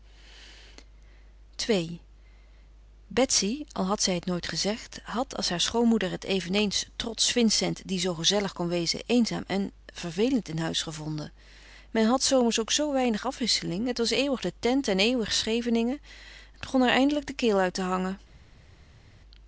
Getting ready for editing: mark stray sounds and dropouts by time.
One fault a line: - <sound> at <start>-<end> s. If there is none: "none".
none